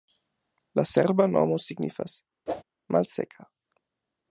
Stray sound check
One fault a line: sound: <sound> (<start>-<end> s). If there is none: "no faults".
sound: whoosh (2.5-2.6 s)